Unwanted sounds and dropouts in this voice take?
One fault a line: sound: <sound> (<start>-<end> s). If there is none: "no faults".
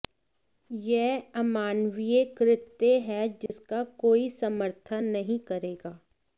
sound: dropout (3.5-3.5 s)